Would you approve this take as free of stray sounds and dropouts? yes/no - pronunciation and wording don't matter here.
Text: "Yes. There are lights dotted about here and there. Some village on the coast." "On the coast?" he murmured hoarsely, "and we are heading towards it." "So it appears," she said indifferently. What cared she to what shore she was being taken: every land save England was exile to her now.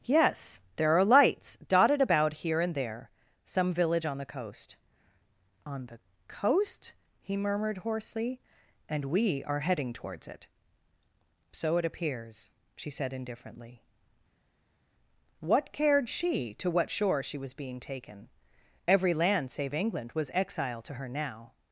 yes